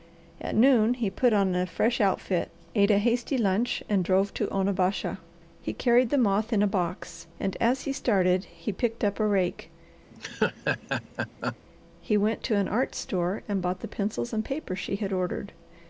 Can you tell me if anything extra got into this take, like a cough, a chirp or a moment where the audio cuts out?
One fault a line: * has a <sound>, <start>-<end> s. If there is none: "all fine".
* has a laugh, 10.1-11.6 s